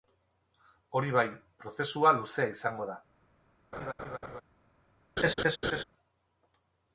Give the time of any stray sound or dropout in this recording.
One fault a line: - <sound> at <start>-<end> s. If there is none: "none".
- laugh at 3.7-4.4 s
- laugh at 5.2-5.8 s